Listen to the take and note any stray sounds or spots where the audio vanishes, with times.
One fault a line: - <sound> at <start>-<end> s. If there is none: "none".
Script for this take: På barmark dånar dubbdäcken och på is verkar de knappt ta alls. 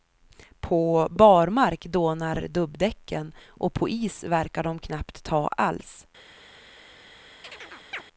- chirp at 7.4-8.0 s